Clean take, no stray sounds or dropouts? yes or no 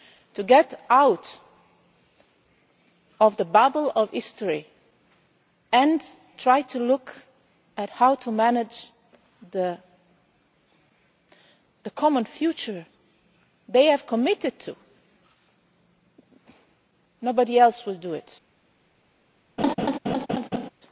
no